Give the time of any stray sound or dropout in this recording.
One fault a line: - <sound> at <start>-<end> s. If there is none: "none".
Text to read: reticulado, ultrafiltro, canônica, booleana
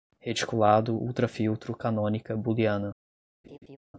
- laugh at 3.4-3.8 s